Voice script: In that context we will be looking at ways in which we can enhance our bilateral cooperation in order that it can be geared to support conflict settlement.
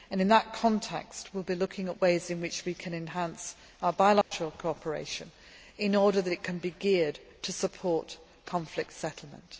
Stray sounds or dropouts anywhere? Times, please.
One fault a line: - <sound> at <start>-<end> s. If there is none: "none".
- dropout at 4.2-4.3 s